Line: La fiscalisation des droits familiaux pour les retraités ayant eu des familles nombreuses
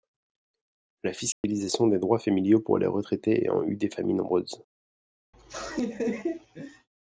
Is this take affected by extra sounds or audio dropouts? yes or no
yes